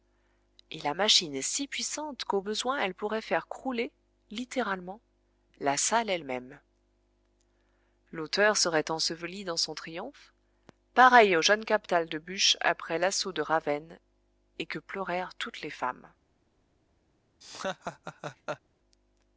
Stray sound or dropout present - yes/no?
yes